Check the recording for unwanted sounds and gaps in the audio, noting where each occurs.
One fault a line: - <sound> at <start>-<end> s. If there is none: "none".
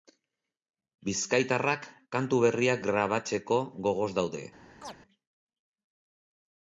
- chirp at 4.8-5.0 s